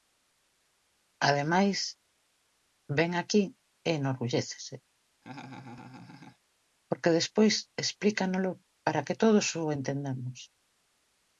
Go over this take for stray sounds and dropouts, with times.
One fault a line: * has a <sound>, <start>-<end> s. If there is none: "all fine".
* has a laugh, 5.2-6.4 s